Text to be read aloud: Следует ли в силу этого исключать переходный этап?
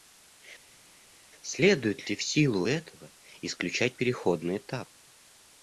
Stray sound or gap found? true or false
false